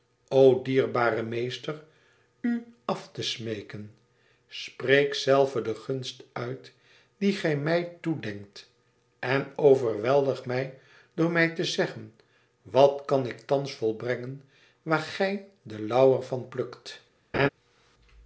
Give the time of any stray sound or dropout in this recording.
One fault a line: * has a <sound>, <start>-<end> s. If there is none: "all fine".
* has a laugh, 17.3-17.5 s